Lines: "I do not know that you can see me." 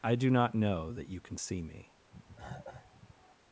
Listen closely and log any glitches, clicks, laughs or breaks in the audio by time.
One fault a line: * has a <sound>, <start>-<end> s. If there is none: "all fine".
* has a cough, 2.1-3.4 s